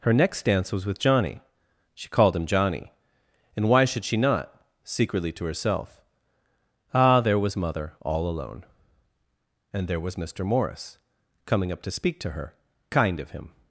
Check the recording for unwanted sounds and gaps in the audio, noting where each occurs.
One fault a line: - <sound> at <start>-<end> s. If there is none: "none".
none